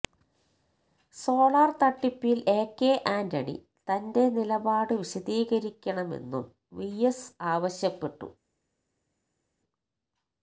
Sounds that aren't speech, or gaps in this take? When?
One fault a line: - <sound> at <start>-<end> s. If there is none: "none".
none